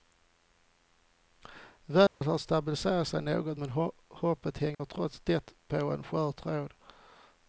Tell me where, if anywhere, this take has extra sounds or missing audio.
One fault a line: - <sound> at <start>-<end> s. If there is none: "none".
- dropout at 2.1-2.2 s
- dropout at 4.7-4.8 s